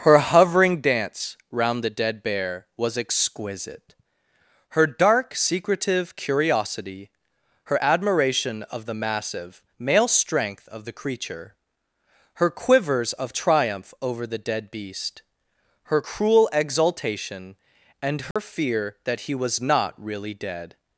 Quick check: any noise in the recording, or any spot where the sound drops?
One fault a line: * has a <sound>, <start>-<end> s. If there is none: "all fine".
* has a dropout, 18.3-18.4 s